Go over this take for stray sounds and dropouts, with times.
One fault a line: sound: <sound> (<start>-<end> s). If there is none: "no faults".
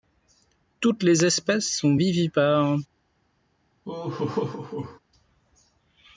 sound: laugh (3.8-5.0 s)